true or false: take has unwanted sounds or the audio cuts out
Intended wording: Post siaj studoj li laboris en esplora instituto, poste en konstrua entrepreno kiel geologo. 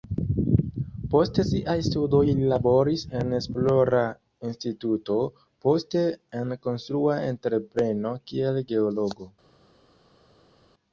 false